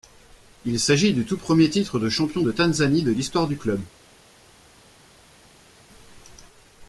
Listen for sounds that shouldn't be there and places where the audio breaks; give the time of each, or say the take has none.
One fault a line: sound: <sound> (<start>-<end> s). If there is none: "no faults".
no faults